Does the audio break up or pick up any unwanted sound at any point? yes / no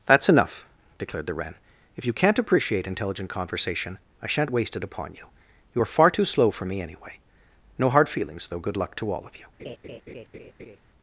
yes